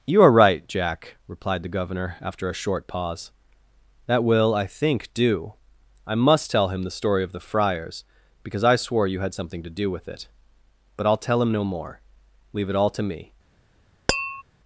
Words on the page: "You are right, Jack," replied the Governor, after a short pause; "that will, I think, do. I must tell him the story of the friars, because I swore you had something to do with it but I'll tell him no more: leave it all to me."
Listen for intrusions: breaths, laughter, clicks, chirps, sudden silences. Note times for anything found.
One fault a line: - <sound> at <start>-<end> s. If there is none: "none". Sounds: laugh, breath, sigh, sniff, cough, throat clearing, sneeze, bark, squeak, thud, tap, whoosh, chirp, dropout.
- tap at 14.1-14.4 s